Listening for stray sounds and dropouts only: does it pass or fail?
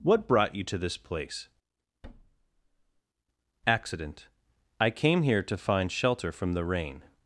fail